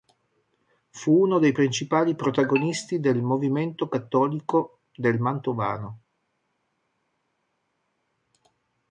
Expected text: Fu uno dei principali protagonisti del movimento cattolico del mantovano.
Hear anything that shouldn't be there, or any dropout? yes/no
no